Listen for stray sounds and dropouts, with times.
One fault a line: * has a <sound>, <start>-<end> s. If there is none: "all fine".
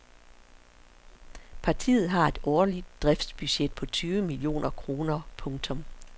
all fine